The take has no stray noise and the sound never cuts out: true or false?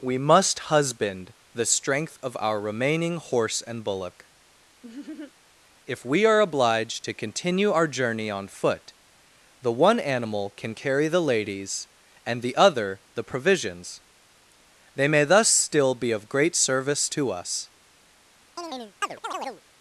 false